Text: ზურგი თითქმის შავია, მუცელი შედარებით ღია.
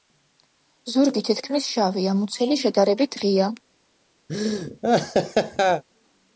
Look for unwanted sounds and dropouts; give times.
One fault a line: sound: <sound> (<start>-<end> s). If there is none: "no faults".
sound: laugh (4.3-5.8 s)